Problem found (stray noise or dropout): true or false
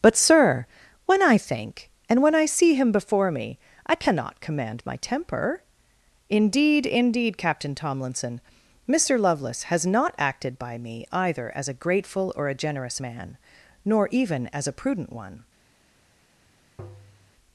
true